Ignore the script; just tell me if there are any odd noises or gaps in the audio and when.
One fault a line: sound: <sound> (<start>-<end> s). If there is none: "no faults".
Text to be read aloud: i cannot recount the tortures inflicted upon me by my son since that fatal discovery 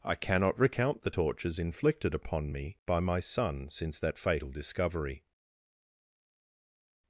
no faults